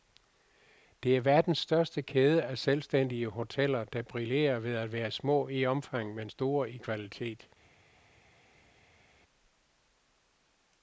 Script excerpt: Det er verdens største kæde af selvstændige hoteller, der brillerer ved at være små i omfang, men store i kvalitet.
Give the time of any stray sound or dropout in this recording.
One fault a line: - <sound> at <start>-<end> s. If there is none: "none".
none